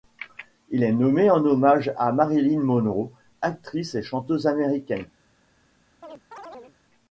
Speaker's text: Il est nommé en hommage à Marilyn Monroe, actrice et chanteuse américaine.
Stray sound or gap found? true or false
true